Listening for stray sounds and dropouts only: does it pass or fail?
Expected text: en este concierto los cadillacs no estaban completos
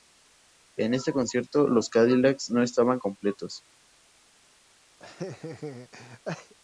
fail